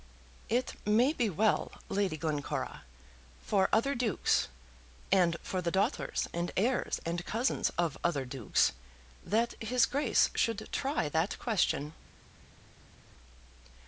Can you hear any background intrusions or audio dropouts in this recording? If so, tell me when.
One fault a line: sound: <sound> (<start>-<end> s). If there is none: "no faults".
no faults